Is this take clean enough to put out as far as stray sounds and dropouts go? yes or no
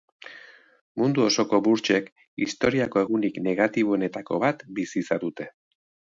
yes